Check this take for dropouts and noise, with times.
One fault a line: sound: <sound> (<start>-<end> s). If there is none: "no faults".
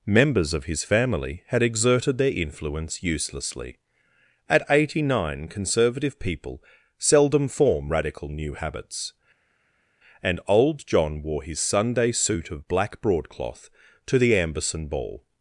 no faults